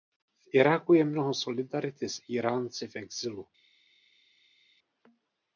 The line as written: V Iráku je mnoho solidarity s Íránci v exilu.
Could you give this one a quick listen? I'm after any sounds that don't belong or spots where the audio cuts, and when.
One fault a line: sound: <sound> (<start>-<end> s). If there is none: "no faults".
no faults